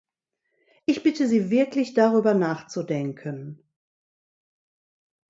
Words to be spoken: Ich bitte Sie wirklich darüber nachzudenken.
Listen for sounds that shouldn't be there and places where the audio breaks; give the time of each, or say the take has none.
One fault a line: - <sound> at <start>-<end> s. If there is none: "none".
none